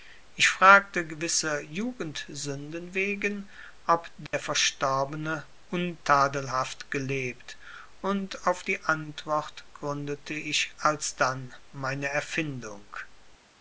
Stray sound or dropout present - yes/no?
yes